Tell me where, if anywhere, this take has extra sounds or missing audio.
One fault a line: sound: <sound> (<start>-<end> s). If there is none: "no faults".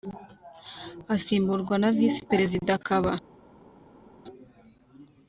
no faults